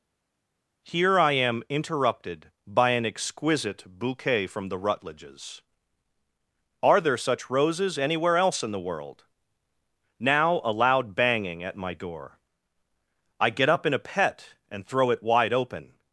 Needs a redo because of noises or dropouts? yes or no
no